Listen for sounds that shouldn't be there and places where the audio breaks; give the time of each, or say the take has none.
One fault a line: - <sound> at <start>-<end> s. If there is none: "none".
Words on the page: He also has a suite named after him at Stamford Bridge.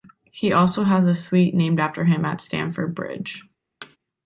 - thud at 3.8-4.0 s